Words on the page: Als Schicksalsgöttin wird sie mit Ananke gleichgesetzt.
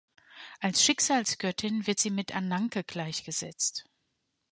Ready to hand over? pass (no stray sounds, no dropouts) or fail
pass